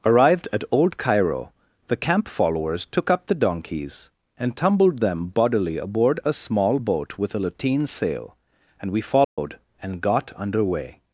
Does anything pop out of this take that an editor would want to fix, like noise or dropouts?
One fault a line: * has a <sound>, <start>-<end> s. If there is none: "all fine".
* has a dropout, 9.2-9.4 s